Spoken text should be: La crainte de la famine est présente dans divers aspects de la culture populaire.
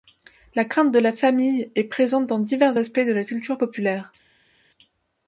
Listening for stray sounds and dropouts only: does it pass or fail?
pass